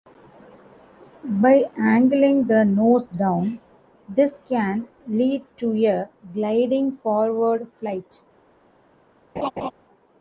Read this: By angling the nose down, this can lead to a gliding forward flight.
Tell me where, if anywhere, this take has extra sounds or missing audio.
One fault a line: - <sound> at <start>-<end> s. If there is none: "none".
- laugh at 9.4-9.7 s